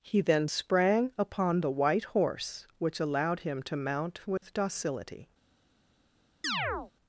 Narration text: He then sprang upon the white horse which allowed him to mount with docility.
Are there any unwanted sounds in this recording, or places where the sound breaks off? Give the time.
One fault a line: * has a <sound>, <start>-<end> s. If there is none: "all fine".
* has a dropout, 4.4-4.4 s
* has a chirp, 6.4-6.9 s